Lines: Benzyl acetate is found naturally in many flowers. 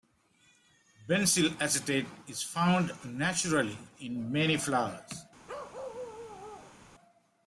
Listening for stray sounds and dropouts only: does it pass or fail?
fail